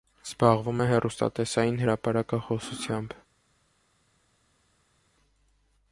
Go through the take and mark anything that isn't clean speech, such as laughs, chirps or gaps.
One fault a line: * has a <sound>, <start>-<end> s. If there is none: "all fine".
all fine